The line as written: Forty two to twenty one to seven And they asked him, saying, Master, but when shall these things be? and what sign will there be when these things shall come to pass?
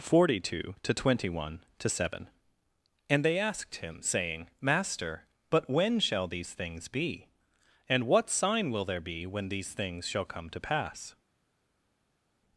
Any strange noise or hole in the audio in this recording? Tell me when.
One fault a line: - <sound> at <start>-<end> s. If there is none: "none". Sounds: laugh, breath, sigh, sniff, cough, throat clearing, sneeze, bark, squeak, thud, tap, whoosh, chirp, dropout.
none